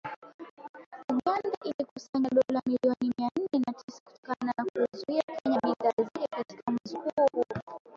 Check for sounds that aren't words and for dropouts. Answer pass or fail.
pass